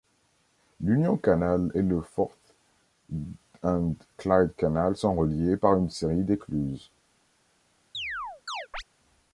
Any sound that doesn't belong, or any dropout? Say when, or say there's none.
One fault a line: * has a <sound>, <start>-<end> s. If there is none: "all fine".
* has a chirp, 7.9-8.8 s